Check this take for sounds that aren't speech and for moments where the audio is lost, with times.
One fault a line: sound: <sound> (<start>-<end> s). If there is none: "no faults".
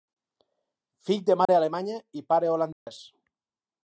sound: dropout (1.4-1.5 s)
sound: dropout (2.7-2.9 s)